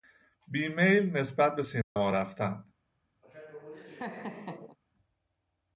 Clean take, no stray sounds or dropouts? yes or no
no